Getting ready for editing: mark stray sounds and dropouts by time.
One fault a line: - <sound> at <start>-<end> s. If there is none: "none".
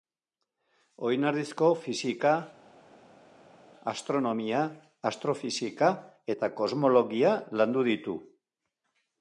none